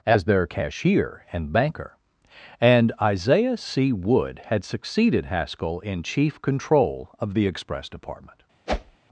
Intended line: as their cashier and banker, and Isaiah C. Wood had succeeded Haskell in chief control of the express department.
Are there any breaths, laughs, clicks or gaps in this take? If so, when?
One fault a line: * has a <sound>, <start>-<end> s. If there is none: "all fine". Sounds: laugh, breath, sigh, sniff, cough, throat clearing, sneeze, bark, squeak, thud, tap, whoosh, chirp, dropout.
* has a whoosh, 8.7-9.0 s